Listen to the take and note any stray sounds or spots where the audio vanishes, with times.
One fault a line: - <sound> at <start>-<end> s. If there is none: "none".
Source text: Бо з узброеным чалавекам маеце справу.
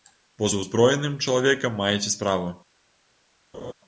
- laugh at 3.5-3.7 s